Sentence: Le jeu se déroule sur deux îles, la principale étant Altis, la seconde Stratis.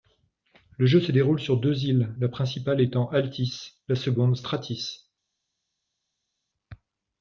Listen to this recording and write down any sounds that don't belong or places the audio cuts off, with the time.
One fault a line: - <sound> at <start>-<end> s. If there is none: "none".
none